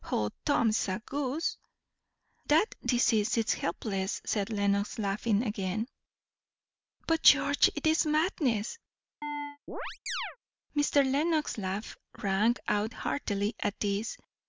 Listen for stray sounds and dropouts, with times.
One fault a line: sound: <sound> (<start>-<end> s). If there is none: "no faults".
sound: chirp (9.2-10.4 s)